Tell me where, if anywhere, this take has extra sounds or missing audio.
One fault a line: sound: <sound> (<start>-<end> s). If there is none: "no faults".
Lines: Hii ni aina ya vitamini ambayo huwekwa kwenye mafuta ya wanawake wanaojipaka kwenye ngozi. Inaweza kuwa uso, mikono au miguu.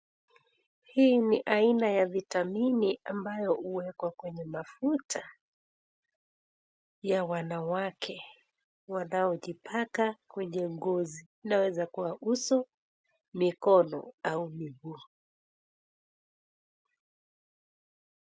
no faults